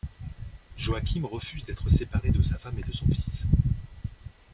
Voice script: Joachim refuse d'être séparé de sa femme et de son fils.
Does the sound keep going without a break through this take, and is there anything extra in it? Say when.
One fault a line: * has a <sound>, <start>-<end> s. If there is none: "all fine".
all fine